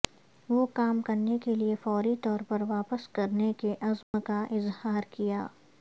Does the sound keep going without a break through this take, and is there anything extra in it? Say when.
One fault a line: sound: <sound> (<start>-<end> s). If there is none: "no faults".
sound: dropout (4.0-4.1 s)